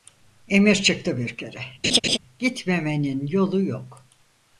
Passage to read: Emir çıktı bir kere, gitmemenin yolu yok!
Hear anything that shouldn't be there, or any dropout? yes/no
yes